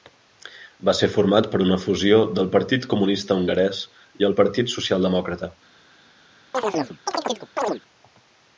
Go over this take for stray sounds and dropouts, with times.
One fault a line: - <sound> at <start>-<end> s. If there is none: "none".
- chirp at 6.5-7.8 s